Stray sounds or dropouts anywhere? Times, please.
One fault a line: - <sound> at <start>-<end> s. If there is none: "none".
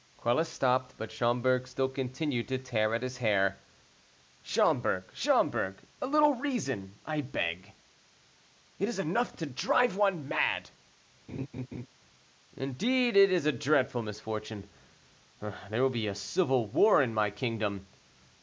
- laugh at 11.3-11.9 s